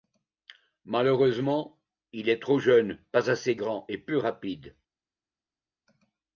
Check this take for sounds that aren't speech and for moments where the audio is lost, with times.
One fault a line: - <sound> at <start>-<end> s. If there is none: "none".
none